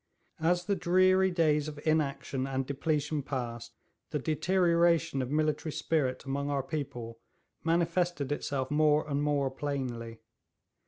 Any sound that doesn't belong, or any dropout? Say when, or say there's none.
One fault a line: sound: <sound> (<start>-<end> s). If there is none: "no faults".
no faults